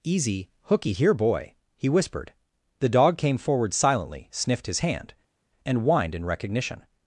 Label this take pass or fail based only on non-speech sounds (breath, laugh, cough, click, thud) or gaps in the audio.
pass